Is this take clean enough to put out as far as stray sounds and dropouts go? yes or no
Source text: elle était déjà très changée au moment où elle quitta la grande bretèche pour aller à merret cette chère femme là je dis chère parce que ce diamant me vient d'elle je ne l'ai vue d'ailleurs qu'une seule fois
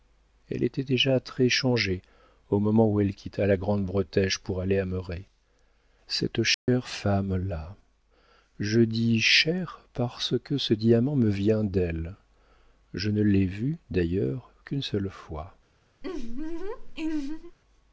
no